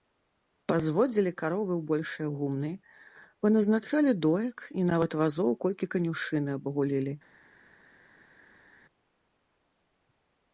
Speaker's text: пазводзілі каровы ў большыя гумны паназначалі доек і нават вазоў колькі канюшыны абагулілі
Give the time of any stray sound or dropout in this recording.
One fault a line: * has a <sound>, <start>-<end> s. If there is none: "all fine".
all fine